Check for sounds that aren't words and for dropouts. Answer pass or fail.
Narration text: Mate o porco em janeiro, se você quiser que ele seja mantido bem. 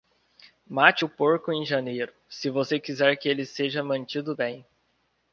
pass